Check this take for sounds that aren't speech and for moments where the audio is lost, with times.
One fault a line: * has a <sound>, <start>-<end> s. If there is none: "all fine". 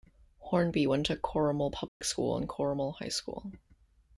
* has a dropout, 1.9-2.0 s